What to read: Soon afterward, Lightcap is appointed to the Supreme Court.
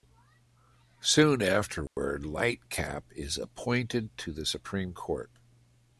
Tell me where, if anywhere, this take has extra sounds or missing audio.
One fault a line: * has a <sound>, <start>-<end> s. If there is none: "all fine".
* has a dropout, 1.9-2.0 s